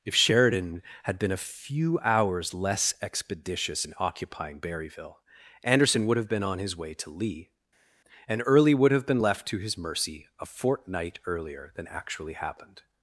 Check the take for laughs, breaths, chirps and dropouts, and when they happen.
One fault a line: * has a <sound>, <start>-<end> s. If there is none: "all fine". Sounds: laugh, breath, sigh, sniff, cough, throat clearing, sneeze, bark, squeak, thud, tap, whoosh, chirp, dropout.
all fine